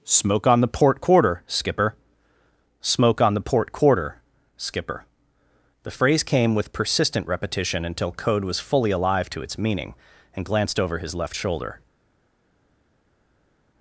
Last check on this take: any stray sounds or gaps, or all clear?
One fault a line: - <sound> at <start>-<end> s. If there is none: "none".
none